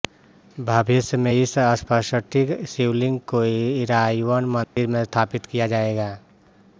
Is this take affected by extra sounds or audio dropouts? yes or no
yes